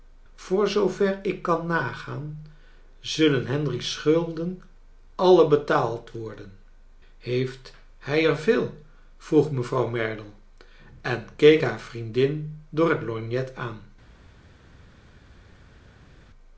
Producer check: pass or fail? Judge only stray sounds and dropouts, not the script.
pass